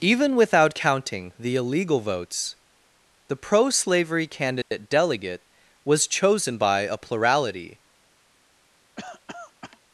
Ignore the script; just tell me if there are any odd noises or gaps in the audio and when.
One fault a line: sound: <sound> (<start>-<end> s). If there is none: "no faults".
sound: dropout (4.6-4.7 s)
sound: cough (9.0-9.8 s)